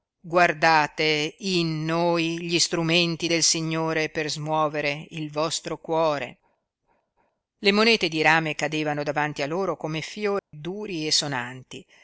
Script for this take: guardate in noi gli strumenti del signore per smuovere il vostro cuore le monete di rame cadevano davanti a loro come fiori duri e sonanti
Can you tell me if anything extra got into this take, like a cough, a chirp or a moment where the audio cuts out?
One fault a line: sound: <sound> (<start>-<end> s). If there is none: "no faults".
sound: dropout (10.4-10.5 s)